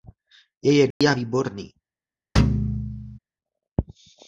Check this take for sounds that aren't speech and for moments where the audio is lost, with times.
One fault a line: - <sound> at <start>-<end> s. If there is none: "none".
- dropout at 0.9-1.0 s
- thud at 2.4-3.2 s